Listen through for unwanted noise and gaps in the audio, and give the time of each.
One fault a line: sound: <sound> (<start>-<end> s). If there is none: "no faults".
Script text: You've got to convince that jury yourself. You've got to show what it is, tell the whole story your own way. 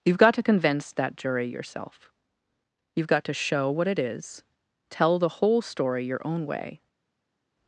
no faults